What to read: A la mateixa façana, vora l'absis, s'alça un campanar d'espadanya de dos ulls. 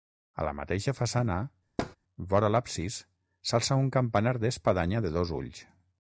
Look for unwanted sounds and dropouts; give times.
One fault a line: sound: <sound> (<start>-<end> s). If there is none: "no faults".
sound: thud (1.8-2.0 s)